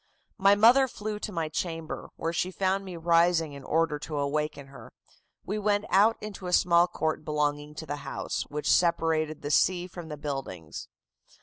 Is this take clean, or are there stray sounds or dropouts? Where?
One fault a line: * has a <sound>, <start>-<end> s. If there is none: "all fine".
all fine